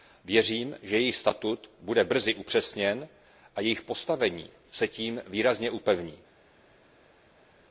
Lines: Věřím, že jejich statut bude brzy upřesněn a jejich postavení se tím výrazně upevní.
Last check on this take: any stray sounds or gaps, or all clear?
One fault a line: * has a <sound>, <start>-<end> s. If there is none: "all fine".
all fine